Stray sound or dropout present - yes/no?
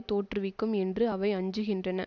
no